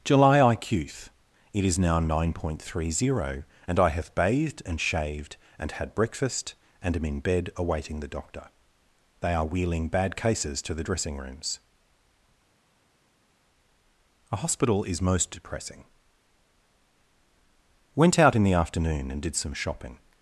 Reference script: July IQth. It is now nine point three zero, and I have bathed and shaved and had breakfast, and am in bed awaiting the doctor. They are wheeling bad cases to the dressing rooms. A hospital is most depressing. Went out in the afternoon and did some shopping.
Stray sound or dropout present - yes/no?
no